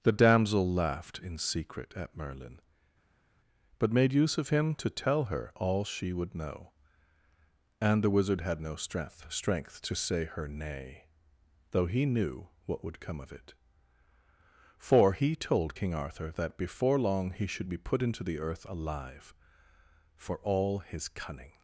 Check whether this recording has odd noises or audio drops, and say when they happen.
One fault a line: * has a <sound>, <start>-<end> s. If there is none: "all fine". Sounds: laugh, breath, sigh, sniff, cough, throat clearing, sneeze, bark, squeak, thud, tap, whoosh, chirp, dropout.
all fine